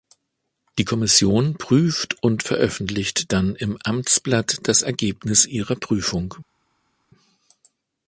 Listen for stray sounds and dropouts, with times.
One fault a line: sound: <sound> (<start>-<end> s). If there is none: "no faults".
no faults